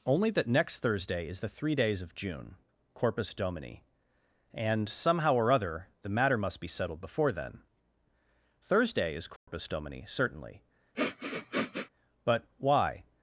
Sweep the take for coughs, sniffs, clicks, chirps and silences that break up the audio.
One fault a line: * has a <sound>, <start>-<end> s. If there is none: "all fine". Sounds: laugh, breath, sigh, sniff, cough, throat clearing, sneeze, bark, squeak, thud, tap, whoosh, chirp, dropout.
* has a dropout, 9.4-9.5 s
* has a sniff, 10.9-11.9 s